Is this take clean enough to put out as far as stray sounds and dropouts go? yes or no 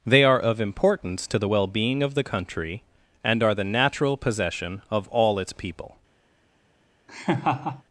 no